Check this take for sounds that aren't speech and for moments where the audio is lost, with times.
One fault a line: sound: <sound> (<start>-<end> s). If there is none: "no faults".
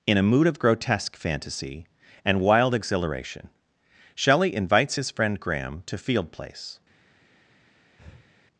sound: breath (8.0-8.3 s)